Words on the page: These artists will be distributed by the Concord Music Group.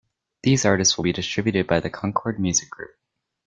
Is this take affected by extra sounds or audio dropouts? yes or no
no